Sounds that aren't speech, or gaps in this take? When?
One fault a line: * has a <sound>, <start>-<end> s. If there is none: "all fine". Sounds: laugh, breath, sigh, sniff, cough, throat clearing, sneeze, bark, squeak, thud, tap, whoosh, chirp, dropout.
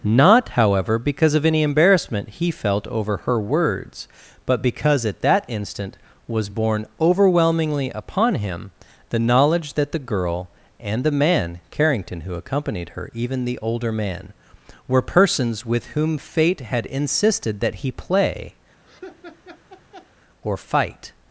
* has a laugh, 18.9-20.1 s